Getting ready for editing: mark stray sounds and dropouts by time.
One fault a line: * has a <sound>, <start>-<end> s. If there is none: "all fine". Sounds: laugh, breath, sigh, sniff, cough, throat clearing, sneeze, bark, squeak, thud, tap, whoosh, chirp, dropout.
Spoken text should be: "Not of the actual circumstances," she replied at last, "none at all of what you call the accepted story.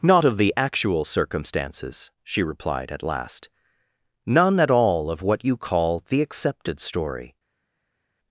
all fine